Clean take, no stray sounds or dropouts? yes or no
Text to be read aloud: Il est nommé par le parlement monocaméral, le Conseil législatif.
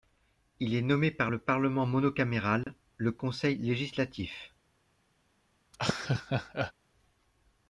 no